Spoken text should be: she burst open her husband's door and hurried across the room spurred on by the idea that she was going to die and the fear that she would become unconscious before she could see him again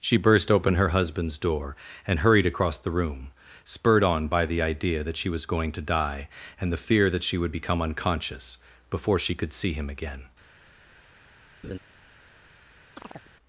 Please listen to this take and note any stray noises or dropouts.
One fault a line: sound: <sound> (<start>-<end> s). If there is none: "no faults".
sound: laugh (11.6-11.8 s)
sound: chirp (12.9-13.3 s)